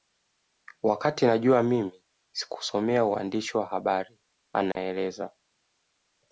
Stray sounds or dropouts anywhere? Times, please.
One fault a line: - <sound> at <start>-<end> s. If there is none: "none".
- dropout at 4.7-4.8 s